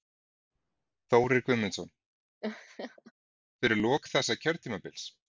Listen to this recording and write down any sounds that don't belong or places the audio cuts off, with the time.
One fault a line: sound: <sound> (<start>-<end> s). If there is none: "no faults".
sound: laugh (2.4-3.1 s)